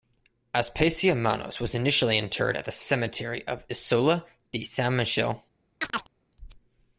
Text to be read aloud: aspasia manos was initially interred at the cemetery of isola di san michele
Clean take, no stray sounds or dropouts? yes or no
no